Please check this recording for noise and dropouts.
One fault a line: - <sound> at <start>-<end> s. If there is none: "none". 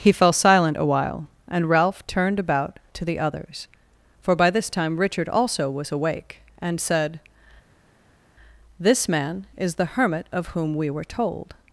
none